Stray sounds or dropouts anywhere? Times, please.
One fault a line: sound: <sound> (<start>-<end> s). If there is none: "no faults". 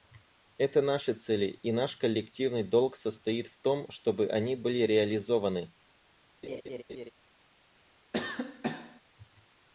sound: laugh (6.4-7.1 s)
sound: cough (8.1-9.0 s)